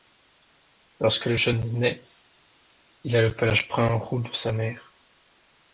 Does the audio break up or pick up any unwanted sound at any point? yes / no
no